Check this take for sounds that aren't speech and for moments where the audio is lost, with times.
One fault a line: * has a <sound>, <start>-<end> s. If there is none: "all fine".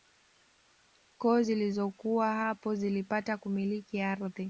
all fine